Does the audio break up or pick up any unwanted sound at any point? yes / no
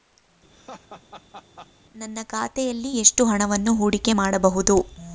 yes